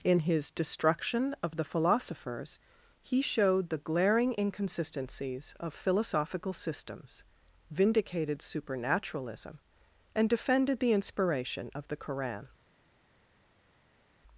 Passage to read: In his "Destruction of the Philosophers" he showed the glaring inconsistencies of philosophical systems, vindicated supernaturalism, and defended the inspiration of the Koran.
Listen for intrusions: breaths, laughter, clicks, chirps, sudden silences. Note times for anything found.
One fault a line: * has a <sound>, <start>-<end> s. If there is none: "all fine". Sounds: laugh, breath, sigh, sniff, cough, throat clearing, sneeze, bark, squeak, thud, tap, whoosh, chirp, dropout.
all fine